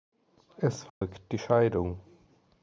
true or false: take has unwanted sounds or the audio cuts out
true